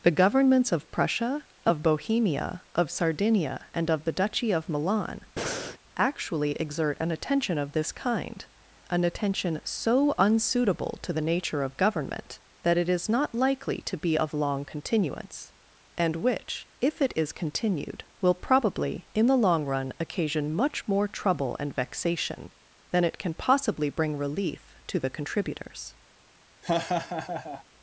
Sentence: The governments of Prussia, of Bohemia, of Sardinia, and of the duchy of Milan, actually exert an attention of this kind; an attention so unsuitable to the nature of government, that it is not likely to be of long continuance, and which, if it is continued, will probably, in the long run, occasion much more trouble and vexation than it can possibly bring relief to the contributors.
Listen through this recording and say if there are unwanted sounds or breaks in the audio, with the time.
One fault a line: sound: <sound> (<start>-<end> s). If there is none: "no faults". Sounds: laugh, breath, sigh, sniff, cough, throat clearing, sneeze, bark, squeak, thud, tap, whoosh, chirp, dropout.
sound: breath (5.4-5.8 s)
sound: laugh (26.6-27.6 s)